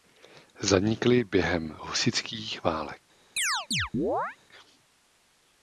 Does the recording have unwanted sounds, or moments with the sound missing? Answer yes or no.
yes